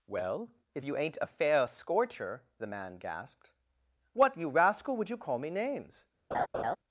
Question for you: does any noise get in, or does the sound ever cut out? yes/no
yes